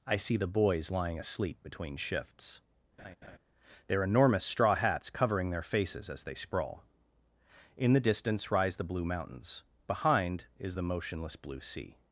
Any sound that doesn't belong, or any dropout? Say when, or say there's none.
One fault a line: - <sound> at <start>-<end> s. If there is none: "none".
- laugh at 3.0-3.4 s